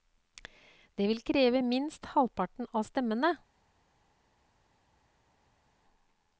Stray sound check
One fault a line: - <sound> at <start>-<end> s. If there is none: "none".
none